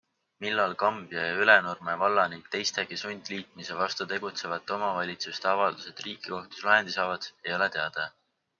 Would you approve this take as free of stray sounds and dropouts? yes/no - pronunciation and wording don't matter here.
yes